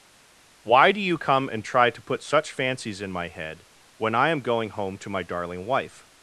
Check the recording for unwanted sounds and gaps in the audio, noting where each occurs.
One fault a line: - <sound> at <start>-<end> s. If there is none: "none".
none